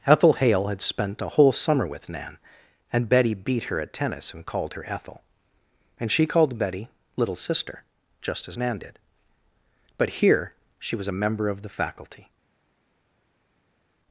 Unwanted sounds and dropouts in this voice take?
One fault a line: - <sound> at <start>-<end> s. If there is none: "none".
none